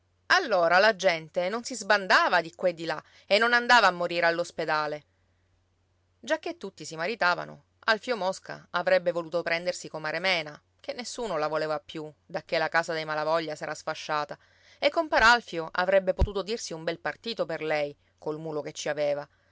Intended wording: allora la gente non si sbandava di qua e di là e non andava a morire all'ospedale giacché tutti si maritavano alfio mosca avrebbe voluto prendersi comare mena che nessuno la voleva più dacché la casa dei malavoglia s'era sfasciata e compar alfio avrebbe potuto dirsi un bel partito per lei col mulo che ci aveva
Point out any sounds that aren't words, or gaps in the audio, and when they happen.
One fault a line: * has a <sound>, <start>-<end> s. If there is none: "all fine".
all fine